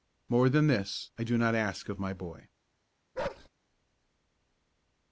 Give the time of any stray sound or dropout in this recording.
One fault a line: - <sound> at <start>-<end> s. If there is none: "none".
- bark at 3.1-3.5 s